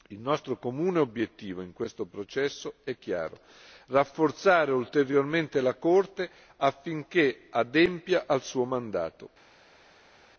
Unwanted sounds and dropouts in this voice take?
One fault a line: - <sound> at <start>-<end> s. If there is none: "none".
none